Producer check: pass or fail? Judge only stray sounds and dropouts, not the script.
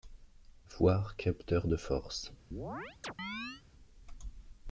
fail